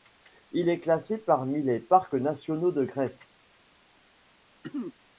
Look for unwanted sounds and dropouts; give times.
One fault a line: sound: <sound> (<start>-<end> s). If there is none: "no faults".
sound: throat clearing (4.6-4.9 s)